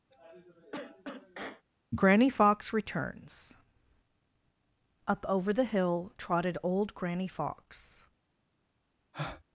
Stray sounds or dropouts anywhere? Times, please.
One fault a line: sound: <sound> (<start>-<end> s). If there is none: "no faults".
sound: cough (0.1-1.6 s)
sound: breath (9.1-9.4 s)